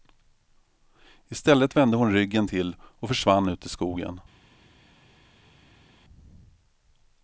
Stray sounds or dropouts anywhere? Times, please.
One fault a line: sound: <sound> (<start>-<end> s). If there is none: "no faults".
no faults